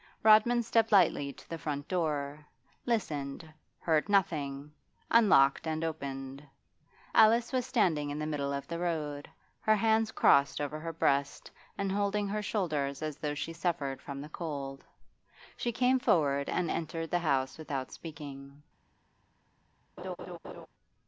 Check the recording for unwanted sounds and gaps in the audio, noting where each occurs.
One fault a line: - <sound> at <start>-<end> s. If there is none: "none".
- laugh at 20.0-20.7 s